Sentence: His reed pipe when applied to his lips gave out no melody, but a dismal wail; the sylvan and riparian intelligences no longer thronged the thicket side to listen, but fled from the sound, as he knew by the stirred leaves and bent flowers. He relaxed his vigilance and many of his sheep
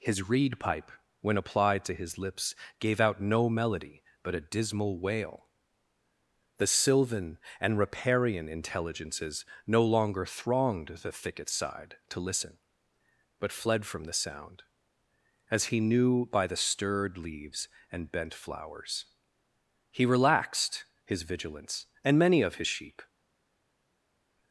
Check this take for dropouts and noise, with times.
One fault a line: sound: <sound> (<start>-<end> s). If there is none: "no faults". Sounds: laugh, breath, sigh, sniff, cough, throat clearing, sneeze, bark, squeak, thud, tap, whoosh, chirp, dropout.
no faults